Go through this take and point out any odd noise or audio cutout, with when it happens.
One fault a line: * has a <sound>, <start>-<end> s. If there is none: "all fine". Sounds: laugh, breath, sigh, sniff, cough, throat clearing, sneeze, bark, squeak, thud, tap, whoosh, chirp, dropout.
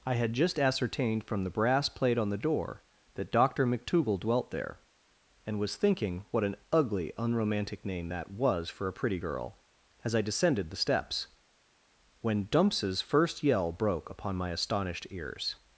all fine